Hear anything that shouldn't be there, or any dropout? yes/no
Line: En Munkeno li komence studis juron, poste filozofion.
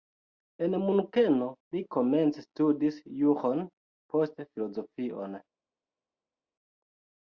no